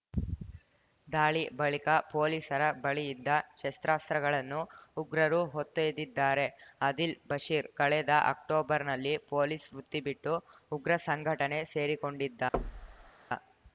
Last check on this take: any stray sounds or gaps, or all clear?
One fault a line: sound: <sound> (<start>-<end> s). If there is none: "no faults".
sound: thud (12.5-13.1 s)